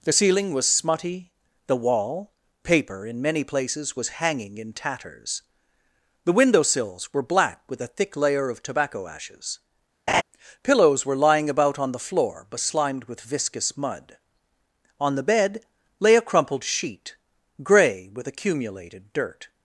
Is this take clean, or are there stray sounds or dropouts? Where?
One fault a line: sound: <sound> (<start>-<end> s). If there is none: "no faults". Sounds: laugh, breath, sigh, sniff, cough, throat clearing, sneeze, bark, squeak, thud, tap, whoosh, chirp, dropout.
sound: laugh (10.1-10.2 s)